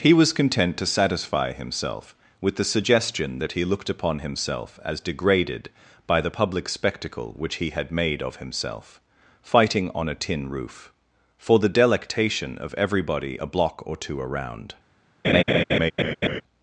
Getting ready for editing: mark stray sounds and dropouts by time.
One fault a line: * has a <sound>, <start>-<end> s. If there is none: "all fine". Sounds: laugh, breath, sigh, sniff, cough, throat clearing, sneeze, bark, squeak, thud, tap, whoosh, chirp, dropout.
* has a laugh, 15.2-16.4 s